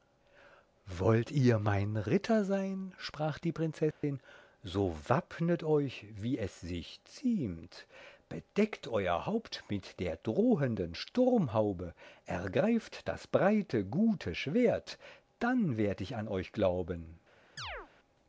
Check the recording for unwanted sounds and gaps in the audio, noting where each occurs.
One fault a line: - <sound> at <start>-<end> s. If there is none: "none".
- dropout at 3.9-4.0 s
- chirp at 17.6-17.9 s